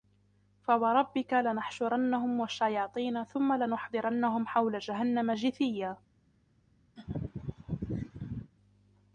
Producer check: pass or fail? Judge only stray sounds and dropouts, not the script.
fail